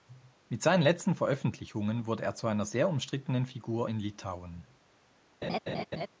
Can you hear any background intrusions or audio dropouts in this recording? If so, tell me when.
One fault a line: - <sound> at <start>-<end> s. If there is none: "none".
- laugh at 5.4-6.1 s